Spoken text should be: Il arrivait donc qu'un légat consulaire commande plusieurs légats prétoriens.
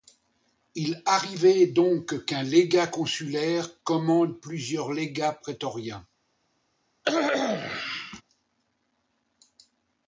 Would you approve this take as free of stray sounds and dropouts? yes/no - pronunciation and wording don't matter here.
no